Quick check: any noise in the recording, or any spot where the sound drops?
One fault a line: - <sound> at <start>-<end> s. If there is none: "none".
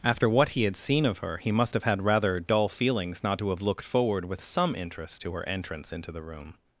none